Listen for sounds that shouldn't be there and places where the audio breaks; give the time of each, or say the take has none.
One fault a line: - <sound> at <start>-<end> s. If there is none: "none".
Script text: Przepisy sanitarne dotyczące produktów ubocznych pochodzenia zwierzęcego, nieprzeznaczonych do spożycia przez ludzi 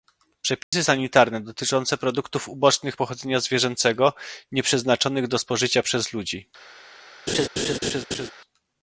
- dropout at 0.6-0.7 s
- laugh at 7.3-8.3 s